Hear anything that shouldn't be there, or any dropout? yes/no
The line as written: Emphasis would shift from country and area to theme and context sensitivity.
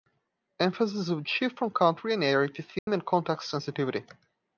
yes